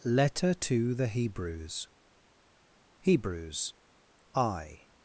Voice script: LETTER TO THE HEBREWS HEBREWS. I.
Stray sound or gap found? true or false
false